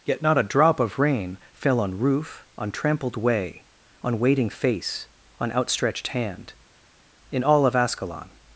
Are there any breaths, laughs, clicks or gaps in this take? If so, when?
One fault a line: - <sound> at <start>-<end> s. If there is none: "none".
none